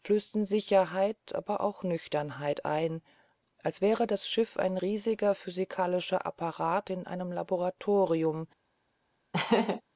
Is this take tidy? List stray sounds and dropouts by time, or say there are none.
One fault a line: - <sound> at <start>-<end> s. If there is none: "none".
- laugh at 9.3-9.8 s